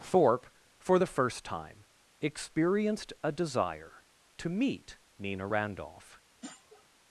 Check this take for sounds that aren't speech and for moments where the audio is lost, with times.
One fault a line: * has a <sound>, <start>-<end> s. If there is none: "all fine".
* has a sniff, 6.4-6.9 s